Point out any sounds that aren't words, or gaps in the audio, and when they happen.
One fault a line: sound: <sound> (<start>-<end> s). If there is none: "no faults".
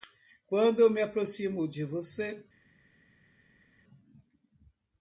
no faults